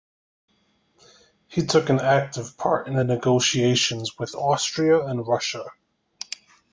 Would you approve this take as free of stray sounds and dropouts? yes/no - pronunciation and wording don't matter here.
yes